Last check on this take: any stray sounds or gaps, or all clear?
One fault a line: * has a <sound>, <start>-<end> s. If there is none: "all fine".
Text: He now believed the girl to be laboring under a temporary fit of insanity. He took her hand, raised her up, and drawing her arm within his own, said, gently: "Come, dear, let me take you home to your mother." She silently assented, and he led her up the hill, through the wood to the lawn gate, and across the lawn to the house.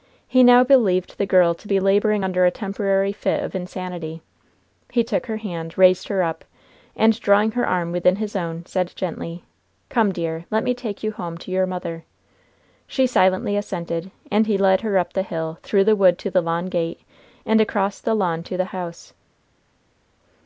all fine